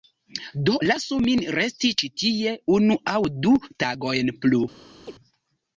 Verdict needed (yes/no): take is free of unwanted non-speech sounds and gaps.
no